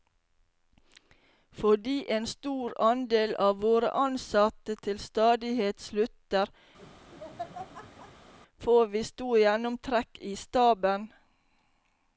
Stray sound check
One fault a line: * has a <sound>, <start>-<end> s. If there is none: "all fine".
* has a laugh, 6.8-8.3 s